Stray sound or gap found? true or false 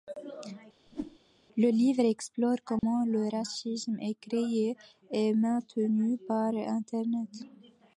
true